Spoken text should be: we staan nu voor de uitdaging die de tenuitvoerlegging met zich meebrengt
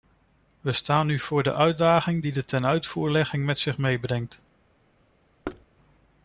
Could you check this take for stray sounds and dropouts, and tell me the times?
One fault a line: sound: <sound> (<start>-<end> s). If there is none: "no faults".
sound: thud (5.4-5.7 s)